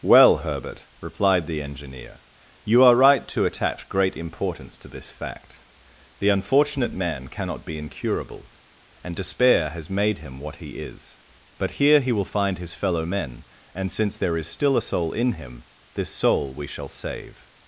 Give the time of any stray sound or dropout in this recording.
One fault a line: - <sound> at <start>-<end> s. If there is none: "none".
none